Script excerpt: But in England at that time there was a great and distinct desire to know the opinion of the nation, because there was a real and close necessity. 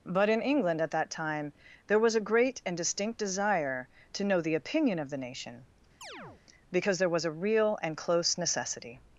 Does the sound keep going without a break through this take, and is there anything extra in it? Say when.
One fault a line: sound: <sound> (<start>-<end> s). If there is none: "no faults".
sound: chirp (6.0-6.4 s)